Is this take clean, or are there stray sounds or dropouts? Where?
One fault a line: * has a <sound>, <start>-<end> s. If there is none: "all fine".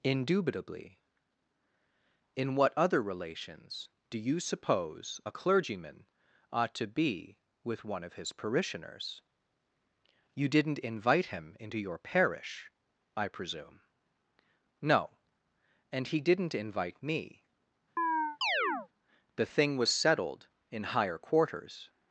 * has a chirp, 18.0-18.9 s